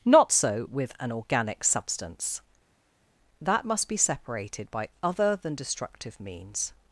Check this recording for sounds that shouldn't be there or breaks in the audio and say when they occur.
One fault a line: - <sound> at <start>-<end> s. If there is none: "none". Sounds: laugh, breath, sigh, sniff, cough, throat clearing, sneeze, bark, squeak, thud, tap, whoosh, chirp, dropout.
none